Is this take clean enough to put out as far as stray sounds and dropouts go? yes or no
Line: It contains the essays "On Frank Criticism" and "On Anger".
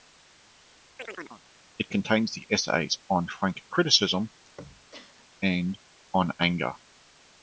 no